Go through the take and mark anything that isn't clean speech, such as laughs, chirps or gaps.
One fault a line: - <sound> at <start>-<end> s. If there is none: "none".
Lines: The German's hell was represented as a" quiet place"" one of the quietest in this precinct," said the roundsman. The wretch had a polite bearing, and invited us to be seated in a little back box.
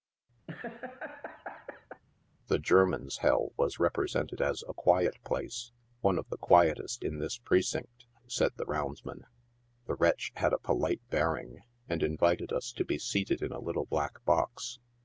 - laugh at 0.5-2.0 s